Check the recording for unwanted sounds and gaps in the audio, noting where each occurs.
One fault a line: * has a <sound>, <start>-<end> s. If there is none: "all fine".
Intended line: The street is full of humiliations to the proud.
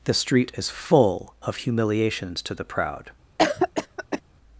* has a cough, 3.4-4.2 s